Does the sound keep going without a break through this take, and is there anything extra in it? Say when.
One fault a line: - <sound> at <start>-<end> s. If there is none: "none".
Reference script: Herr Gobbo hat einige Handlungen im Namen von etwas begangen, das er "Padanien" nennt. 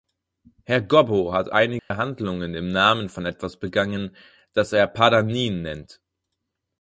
- dropout at 1.8-1.9 s